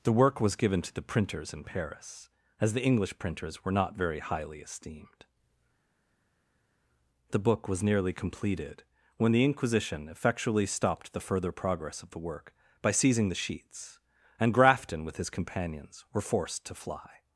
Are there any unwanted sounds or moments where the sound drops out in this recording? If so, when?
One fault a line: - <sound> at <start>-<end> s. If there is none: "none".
none